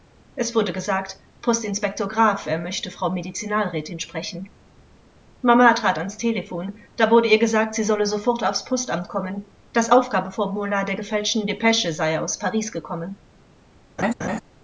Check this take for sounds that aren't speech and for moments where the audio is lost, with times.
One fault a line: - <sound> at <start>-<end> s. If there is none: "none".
- laugh at 14.0-14.4 s